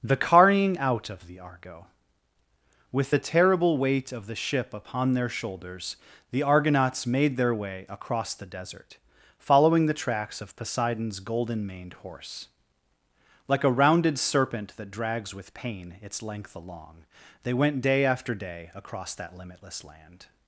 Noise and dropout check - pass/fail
pass